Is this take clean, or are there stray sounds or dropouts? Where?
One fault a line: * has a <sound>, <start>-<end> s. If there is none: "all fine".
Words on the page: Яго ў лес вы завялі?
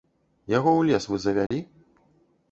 * has a dropout, 1.5-1.5 s